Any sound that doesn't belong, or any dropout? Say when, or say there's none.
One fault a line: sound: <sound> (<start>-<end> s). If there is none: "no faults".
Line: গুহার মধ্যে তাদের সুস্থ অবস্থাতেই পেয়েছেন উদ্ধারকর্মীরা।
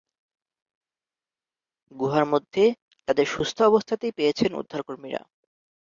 no faults